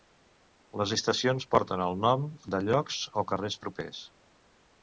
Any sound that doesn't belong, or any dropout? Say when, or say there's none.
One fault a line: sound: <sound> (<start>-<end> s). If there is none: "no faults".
no faults